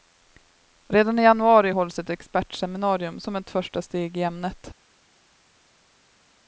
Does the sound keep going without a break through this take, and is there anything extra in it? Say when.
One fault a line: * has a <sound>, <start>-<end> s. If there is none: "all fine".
all fine